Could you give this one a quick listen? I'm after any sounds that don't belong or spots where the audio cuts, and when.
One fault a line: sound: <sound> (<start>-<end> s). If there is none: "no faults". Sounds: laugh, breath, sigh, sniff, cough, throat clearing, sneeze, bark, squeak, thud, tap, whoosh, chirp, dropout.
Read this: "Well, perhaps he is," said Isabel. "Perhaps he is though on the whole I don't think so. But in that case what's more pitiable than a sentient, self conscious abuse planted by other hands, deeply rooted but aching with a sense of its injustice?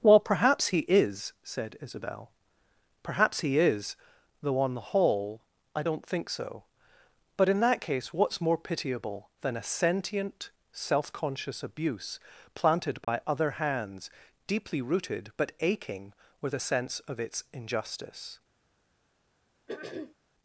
sound: dropout (13.0-13.1 s)
sound: throat clearing (19.7-20.2 s)